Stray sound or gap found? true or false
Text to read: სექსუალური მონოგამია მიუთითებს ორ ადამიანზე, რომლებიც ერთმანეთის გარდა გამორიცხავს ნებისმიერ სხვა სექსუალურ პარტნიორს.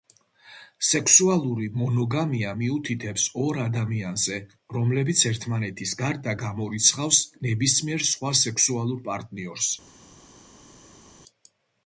false